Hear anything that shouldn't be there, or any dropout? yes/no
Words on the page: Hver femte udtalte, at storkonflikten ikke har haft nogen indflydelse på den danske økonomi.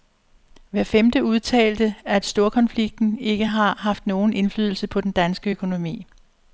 no